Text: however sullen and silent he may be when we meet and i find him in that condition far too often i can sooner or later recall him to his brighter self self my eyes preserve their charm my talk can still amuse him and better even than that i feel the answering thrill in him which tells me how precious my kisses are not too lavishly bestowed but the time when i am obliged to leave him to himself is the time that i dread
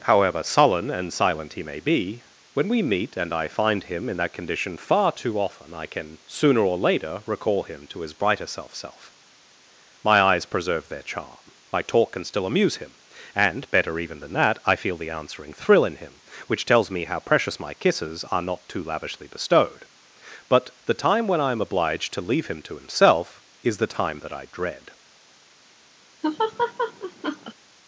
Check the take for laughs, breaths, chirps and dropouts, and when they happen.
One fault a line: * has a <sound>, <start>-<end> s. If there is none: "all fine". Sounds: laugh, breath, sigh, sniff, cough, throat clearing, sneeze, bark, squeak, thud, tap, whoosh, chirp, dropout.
* has a laugh, 26.2-27.5 s